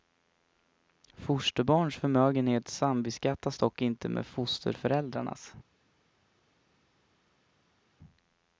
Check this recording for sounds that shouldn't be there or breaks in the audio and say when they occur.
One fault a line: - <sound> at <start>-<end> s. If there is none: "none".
none